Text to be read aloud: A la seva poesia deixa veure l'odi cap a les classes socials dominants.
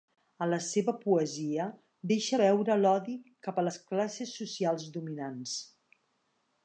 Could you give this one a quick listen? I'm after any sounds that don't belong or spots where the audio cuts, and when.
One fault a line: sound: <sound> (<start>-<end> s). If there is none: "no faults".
no faults